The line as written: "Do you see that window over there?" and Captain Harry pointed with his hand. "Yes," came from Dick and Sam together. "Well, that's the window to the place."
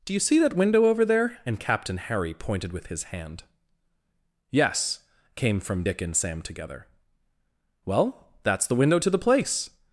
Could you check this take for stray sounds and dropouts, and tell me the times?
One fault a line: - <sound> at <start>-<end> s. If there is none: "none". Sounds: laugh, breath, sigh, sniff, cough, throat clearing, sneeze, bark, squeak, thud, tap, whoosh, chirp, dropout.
none